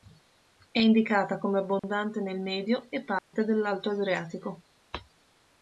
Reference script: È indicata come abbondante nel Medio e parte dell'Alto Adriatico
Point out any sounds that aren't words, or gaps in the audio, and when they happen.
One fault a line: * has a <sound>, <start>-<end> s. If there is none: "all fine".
* has a dropout, 1.8-1.8 s
* has a dropout, 3.2-3.3 s